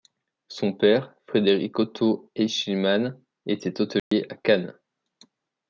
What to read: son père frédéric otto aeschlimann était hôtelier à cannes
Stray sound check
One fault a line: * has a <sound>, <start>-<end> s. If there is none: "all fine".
* has a dropout, 4.0-4.1 s